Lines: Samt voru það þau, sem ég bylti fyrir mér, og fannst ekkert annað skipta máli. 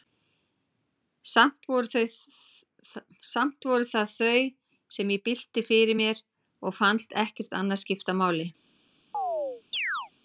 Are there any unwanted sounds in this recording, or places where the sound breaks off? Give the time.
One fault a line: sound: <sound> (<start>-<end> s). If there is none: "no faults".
sound: chirp (9.1-10.1 s)